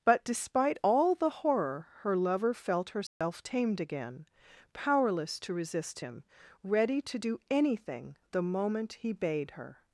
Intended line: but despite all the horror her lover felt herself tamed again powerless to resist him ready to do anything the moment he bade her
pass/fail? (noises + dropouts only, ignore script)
fail